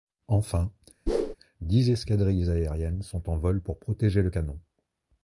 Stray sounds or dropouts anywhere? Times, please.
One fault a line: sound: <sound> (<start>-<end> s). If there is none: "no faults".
sound: whoosh (1.1-1.4 s)